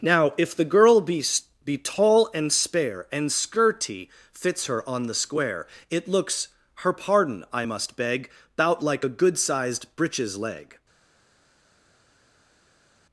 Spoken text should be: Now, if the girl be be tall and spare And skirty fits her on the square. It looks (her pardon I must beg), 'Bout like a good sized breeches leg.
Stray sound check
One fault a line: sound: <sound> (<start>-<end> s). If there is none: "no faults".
no faults